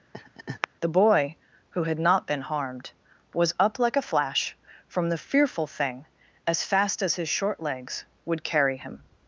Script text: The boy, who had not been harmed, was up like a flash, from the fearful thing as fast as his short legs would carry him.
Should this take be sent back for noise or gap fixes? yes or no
yes